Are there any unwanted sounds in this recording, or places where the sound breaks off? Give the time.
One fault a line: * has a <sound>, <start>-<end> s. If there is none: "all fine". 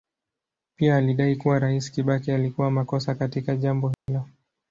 * has a dropout, 3.9-4.1 s